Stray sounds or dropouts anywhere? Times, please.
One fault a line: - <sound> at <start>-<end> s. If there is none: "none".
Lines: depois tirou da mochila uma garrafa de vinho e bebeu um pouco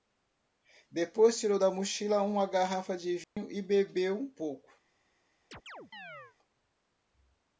- dropout at 3.2-3.4 s
- chirp at 5.5-6.4 s